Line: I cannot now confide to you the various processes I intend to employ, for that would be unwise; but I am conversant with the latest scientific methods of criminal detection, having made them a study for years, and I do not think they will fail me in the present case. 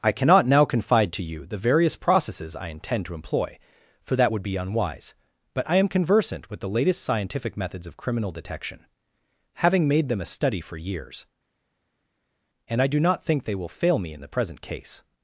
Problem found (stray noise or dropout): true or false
false